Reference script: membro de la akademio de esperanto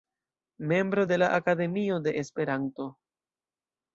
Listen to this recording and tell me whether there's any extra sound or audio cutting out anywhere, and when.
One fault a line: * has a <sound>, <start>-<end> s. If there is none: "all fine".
all fine